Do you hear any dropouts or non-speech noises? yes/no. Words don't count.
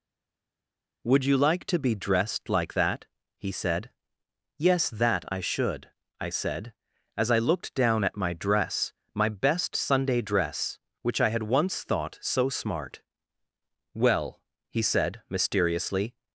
no